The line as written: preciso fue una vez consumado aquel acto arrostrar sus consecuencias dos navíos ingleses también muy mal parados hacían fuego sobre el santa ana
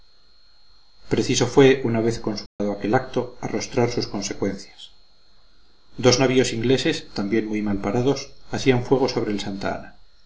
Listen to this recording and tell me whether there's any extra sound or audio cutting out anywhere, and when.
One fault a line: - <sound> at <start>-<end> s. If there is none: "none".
- dropout at 2.5-2.6 s